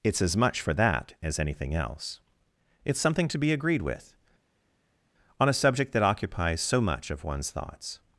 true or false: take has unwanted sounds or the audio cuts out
false